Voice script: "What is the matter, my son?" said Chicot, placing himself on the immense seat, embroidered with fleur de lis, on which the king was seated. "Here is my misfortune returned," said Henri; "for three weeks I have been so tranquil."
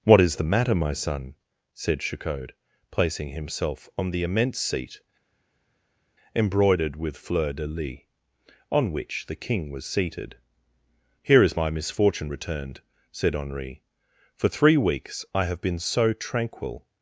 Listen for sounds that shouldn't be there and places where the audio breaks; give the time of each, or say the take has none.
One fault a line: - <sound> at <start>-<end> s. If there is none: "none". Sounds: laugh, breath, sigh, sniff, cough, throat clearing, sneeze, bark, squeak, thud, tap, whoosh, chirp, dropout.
none